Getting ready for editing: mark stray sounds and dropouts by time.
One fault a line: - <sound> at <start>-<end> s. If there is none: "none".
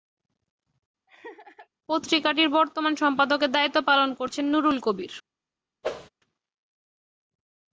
- laugh at 1.1-1.7 s
- whoosh at 5.8-6.1 s